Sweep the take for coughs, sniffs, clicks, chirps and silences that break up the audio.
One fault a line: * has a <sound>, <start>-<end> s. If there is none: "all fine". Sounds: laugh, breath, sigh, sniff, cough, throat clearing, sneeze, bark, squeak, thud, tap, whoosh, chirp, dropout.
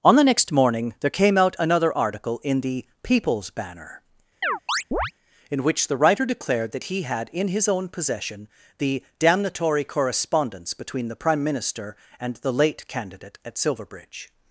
* has a chirp, 4.4-5.1 s